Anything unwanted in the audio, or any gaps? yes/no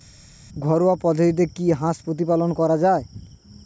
no